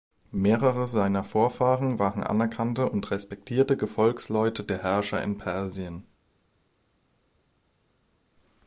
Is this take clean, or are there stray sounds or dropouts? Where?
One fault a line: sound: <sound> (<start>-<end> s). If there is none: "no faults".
no faults